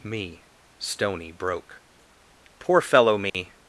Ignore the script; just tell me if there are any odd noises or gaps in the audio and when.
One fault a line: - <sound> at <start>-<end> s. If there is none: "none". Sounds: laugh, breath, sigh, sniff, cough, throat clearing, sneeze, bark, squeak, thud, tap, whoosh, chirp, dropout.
- dropout at 3.3-3.3 s